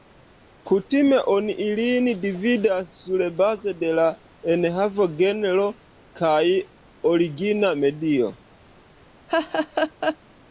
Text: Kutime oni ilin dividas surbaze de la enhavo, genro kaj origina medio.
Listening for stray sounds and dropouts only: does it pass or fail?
fail